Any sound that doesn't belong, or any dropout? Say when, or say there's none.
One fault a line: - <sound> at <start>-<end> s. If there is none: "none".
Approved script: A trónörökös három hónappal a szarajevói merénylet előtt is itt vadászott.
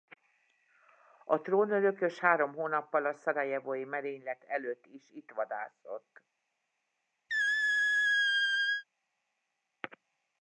- squeak at 7.3-8.8 s